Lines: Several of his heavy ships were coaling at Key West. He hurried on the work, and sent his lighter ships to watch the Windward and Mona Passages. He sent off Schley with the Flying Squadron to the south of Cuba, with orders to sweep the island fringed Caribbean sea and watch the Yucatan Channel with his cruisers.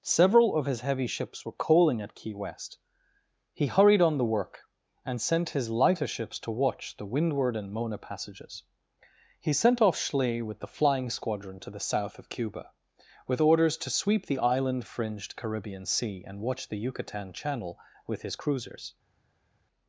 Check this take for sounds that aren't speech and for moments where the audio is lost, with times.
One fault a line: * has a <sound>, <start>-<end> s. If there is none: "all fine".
all fine